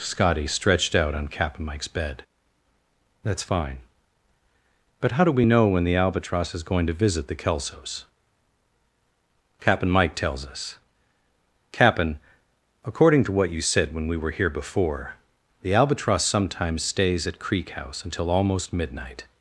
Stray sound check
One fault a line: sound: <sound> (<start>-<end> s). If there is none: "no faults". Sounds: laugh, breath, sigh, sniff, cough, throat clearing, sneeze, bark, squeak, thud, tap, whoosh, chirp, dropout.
no faults